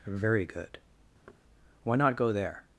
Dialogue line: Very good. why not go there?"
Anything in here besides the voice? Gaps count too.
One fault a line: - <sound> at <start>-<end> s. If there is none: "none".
- thud at 1.3-1.4 s